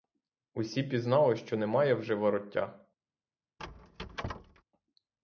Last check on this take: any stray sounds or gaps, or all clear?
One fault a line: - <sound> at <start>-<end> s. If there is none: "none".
- squeak at 3.6-4.6 s